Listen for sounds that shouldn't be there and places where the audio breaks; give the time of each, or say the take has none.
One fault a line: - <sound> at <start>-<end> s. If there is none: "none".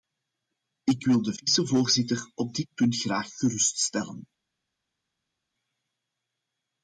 none